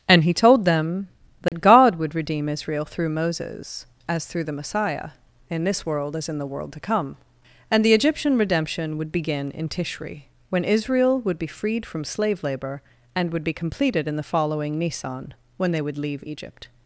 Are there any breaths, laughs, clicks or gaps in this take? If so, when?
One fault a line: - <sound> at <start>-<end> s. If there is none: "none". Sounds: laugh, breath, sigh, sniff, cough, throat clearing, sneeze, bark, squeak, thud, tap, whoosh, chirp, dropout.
- dropout at 1.5-1.5 s